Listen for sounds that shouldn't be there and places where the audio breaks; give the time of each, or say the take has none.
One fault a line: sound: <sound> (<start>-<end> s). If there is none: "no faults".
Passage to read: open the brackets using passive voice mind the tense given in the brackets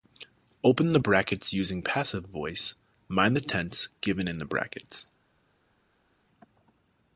no faults